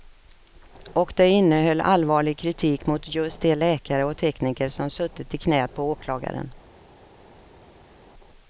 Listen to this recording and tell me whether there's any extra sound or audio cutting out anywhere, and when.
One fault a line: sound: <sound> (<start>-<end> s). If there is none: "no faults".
no faults